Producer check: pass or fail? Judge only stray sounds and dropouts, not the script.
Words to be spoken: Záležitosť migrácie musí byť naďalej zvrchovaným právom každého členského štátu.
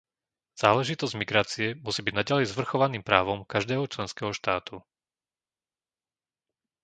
pass